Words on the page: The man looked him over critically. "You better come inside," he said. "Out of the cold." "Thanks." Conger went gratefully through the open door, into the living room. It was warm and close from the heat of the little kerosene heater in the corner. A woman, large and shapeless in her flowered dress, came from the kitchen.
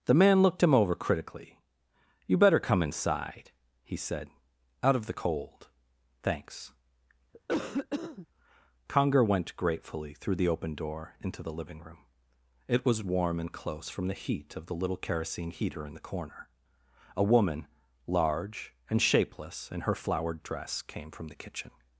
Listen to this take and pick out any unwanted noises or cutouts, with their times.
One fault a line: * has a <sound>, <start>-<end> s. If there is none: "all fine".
* has a cough, 7.3-8.3 s